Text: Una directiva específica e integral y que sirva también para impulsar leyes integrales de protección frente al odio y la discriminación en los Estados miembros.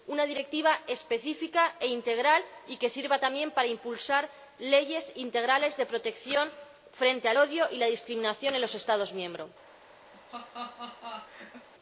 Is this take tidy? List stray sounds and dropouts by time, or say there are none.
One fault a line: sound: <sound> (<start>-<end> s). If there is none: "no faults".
sound: laugh (10.1-11.7 s)